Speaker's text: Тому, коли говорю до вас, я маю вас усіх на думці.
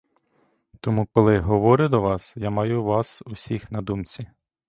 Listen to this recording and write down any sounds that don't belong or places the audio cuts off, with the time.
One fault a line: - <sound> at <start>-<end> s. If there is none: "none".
- dropout at 1.1-1.2 s